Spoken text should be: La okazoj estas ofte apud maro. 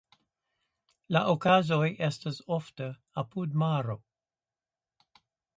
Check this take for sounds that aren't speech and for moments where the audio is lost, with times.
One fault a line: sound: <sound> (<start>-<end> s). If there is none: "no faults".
no faults